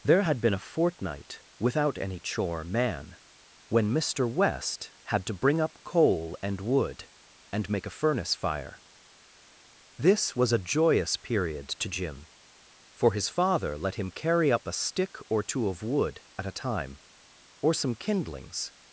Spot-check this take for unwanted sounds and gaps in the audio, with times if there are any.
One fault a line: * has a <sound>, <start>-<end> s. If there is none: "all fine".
all fine